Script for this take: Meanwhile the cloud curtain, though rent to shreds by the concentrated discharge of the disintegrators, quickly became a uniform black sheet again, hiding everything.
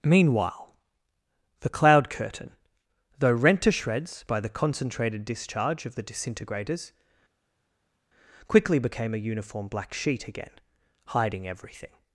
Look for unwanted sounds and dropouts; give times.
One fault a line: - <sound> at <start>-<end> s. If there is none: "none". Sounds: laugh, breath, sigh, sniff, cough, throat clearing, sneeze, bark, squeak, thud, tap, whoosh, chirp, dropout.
none